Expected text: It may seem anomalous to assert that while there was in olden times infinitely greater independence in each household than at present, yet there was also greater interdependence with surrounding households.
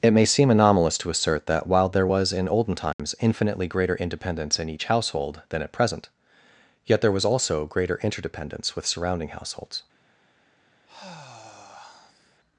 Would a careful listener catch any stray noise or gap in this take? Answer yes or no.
yes